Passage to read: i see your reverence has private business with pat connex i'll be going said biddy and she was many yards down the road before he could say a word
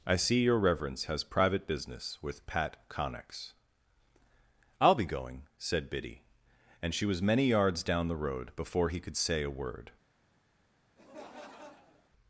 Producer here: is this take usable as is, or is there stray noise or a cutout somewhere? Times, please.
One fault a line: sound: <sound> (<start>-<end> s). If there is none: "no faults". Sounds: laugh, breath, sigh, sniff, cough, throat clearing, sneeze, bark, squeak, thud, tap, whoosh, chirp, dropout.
sound: laugh (11.0-12.1 s)